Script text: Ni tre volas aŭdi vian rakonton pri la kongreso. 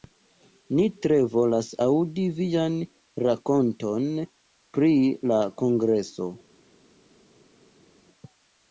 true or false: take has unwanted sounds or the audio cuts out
false